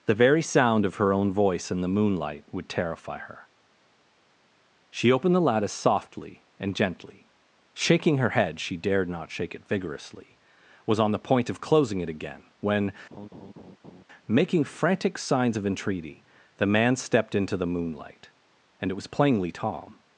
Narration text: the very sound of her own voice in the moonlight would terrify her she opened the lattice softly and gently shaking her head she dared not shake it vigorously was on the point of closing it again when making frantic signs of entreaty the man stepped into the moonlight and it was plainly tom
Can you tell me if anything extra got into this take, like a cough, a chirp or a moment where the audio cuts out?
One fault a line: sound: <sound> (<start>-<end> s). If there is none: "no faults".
sound: laugh (13.1-14.0 s)